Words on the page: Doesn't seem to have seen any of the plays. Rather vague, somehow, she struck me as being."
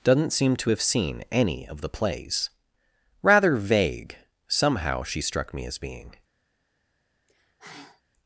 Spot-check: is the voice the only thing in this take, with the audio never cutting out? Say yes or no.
no